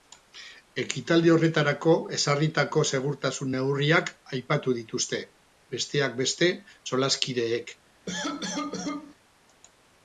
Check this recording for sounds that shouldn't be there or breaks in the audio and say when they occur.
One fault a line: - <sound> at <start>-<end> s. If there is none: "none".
- cough at 8.1-9.2 s